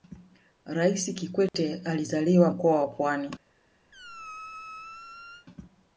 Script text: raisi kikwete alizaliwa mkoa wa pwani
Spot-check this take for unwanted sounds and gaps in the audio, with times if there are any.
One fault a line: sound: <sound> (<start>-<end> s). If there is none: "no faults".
sound: dropout (1.5-1.5 s)
sound: squeak (3.9-5.5 s)